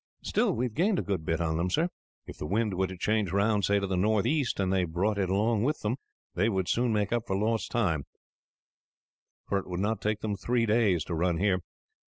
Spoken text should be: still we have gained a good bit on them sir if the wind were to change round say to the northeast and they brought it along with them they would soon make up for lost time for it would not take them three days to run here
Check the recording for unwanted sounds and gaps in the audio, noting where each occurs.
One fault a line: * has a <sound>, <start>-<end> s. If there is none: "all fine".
all fine